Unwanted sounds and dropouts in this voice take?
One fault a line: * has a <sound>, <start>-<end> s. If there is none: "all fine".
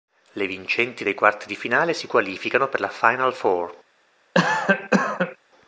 * has a cough, 4.3-5.4 s